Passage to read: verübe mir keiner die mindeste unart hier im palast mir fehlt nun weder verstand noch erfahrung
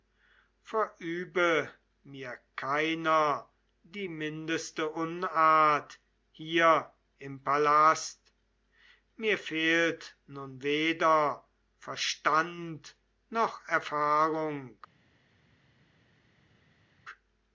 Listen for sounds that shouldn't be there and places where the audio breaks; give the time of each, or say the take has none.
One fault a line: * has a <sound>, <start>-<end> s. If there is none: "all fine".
all fine